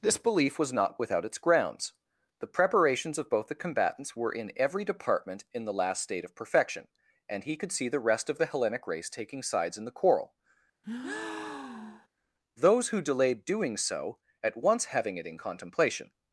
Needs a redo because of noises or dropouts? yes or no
yes